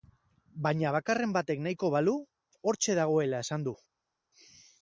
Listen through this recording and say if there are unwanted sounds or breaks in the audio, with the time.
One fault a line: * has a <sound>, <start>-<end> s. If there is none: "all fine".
all fine